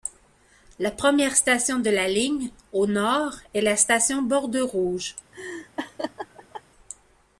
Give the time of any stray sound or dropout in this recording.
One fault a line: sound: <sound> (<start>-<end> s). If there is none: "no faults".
sound: laugh (5.3-6.6 s)